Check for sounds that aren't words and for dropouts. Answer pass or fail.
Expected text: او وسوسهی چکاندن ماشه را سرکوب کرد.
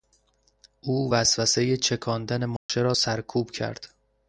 fail